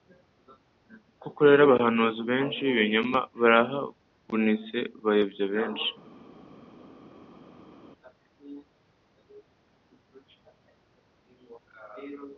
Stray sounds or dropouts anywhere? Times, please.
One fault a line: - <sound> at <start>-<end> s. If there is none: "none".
none